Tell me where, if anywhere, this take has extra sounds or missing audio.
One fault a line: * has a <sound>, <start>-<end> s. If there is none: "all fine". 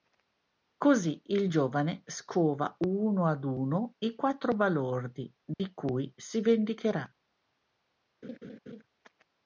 * has a dropout, 5.5-5.6 s
* has a laugh, 8.2-8.8 s